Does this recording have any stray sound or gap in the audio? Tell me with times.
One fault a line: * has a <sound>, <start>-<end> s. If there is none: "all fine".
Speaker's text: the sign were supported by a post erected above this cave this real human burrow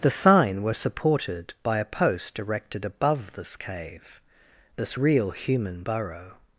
all fine